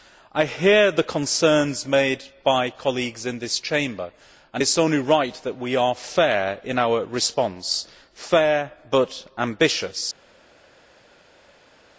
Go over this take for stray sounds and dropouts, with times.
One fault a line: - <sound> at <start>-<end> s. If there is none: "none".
none